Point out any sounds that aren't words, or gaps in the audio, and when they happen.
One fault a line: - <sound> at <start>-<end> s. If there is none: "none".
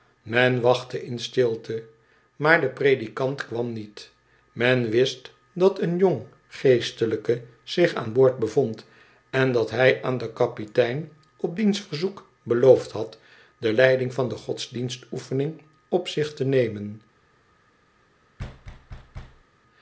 - thud at 18.4-19.4 s